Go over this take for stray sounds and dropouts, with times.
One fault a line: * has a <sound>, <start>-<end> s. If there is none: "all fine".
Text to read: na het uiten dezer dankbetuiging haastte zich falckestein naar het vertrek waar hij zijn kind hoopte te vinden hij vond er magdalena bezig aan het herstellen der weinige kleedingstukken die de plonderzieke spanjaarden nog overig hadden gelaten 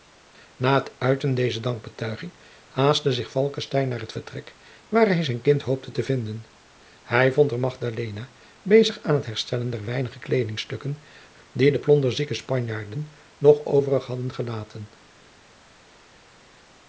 all fine